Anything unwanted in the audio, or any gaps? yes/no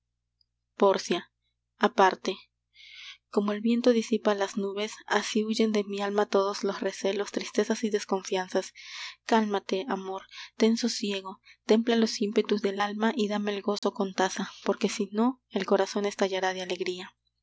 yes